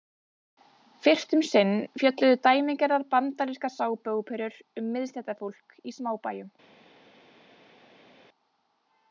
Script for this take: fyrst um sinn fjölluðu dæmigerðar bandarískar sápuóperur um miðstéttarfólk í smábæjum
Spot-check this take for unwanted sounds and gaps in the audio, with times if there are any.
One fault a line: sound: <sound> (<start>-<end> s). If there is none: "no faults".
no faults